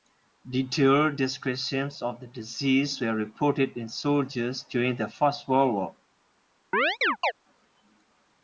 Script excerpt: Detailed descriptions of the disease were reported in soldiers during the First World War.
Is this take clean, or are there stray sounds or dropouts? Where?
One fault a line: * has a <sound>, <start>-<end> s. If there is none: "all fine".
* has a chirp, 6.7-7.3 s